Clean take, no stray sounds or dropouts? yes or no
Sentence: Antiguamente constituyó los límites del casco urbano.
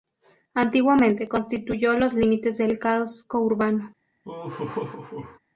no